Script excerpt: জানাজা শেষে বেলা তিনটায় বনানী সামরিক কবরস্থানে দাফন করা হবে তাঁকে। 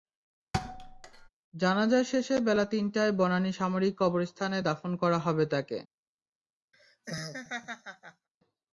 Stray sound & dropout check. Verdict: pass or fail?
fail